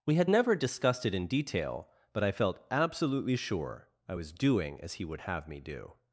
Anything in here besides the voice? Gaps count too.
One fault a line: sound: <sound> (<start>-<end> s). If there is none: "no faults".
no faults